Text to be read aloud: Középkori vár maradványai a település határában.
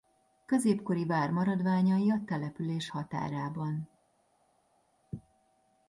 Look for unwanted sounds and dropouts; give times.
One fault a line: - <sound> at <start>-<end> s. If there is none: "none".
none